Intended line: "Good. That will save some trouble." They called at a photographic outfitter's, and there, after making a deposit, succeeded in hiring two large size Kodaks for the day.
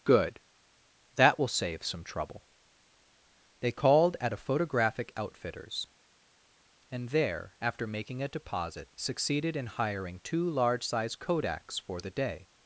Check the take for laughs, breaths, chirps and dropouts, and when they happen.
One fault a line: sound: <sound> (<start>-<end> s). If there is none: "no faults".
no faults